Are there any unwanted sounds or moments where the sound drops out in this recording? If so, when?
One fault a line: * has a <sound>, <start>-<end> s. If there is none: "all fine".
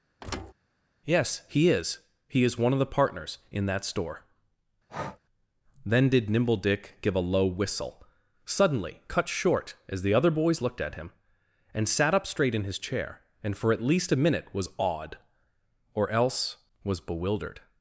* has a thud, 0.2-0.5 s
* has a breath, 4.9-5.2 s